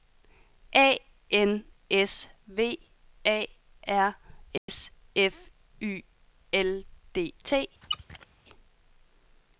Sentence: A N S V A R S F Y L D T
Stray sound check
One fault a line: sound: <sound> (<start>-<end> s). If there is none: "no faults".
sound: dropout (4.6-4.7 s)
sound: squeak (7.8-8.3 s)